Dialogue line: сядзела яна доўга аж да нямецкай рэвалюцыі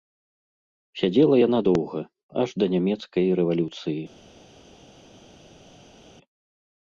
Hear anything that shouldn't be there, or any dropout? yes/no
no